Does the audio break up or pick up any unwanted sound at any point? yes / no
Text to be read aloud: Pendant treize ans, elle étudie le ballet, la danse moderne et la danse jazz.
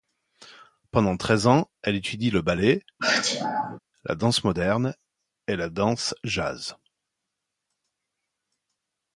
yes